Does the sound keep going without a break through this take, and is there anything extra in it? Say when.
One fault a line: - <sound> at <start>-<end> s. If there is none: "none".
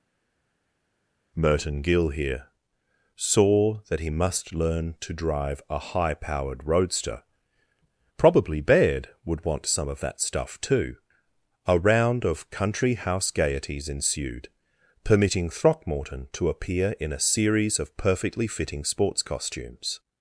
none